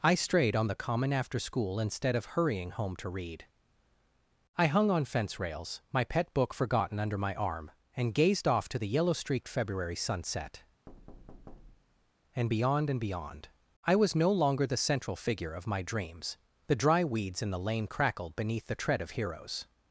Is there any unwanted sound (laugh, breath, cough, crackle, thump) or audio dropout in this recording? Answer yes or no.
yes